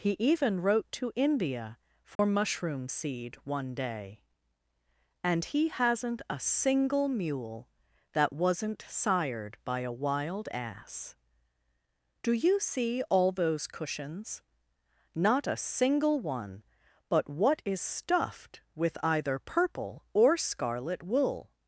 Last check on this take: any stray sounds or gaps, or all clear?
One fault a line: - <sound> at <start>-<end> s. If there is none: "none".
- dropout at 2.2-2.2 s